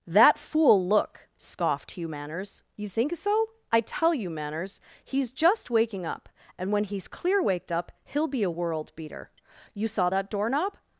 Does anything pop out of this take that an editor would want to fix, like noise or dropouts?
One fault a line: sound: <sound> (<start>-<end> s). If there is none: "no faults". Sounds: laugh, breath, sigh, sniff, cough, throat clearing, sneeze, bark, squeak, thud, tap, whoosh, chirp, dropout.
no faults